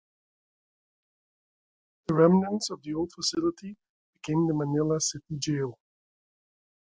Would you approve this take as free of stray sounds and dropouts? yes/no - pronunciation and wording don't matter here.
yes